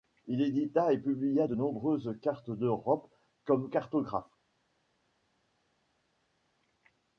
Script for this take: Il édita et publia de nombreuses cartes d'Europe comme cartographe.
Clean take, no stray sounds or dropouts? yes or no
yes